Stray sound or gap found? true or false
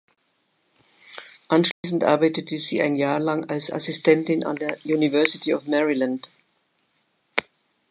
true